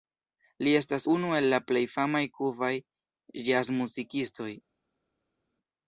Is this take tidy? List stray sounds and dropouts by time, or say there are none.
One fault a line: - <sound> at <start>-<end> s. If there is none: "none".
none